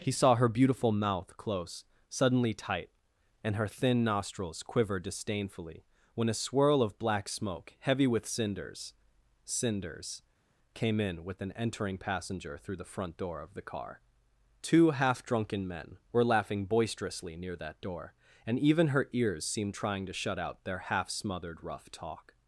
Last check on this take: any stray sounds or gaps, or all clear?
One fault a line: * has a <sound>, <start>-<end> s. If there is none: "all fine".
all fine